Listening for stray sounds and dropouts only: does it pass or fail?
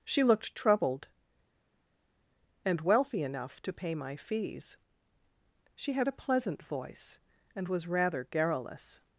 pass